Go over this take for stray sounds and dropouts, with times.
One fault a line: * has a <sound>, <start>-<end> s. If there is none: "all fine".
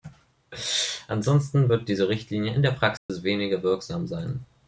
* has a dropout, 3.0-3.1 s